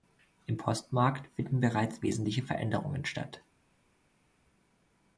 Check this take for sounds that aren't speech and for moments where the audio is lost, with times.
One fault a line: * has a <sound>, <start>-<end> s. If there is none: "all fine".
all fine